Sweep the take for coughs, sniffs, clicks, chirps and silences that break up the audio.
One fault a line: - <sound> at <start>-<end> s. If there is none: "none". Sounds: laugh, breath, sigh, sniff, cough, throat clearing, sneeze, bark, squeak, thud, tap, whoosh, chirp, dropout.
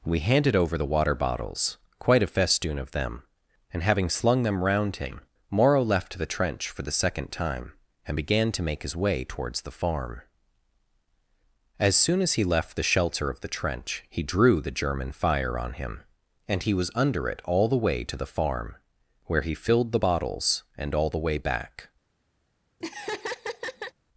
- laugh at 22.8-23.9 s